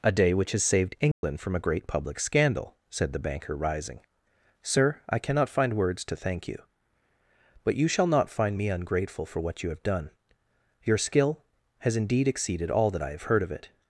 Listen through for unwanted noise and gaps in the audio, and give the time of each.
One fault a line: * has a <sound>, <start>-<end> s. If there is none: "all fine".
* has a dropout, 1.1-1.2 s